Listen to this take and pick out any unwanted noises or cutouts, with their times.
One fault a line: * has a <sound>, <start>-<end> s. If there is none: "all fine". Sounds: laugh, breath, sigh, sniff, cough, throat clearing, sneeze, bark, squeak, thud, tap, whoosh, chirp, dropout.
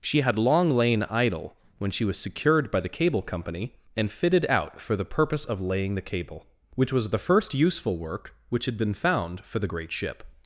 all fine